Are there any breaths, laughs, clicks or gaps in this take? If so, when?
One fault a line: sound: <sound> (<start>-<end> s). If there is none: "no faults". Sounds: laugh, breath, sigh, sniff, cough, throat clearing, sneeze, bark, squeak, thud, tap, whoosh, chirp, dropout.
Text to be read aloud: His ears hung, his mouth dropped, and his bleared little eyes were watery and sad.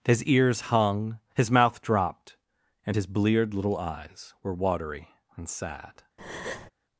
sound: breath (6.2-6.7 s)